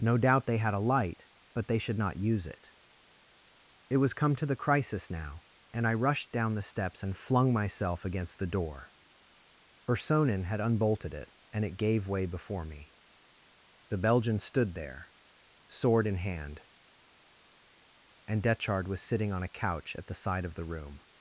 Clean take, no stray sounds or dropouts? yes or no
yes